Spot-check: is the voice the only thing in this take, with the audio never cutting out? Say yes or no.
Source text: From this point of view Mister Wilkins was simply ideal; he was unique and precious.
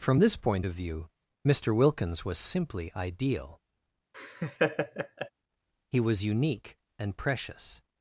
no